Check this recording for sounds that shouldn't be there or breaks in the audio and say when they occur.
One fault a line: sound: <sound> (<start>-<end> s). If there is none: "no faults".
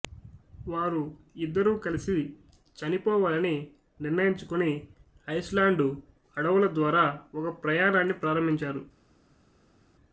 no faults